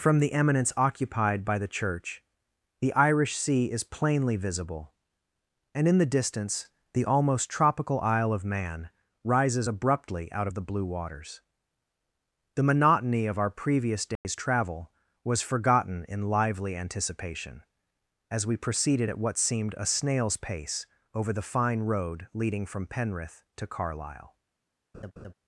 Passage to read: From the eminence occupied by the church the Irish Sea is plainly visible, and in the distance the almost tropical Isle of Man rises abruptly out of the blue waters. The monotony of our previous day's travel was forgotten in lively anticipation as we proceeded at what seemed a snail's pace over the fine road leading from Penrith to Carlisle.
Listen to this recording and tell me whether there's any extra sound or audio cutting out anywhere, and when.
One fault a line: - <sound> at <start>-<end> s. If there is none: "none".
- dropout at 14.2-14.2 s
- laugh at 24.9-25.3 s